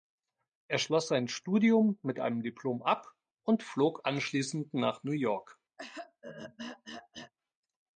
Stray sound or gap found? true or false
true